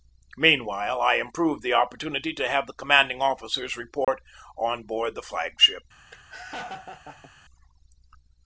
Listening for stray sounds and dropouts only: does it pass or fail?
fail